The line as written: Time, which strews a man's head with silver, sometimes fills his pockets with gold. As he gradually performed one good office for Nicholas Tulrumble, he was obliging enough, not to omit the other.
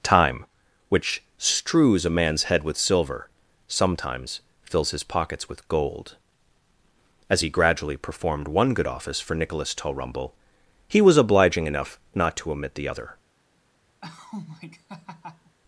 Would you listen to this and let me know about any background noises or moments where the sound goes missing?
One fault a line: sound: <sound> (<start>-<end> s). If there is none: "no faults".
sound: laugh (14.0-15.6 s)